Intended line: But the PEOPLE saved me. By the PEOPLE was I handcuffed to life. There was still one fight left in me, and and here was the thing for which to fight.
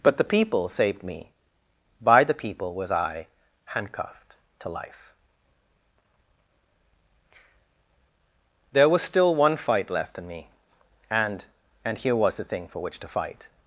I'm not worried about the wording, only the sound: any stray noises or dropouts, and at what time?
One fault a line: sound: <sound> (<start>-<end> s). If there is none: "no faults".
no faults